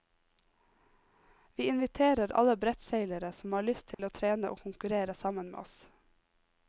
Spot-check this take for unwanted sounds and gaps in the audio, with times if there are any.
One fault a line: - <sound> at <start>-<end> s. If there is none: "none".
- dropout at 3.9-4.0 s